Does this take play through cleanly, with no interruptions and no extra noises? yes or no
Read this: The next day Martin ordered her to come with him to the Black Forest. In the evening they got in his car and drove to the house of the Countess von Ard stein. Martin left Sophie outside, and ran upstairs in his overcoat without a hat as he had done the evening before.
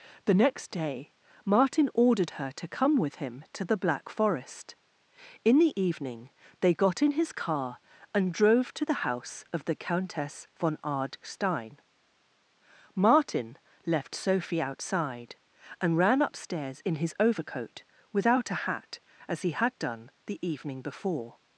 yes